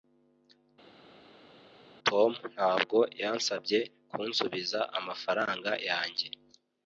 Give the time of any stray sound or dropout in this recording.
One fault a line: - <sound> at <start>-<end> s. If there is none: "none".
none